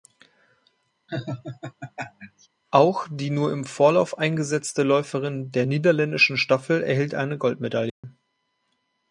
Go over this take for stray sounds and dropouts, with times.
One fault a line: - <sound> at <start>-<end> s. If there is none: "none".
- laugh at 1.1-2.5 s
- dropout at 7.9-8.0 s